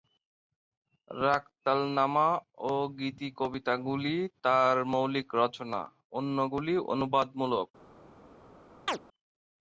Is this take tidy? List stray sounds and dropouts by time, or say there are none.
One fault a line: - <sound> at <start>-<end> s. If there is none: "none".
- chirp at 8.9-9.0 s